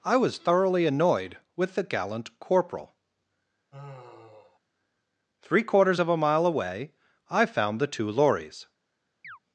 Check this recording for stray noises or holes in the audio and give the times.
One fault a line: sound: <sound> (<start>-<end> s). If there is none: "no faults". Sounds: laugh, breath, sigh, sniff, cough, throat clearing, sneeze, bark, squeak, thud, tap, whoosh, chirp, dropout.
sound: sigh (3.7-4.6 s)
sound: chirp (9.2-9.4 s)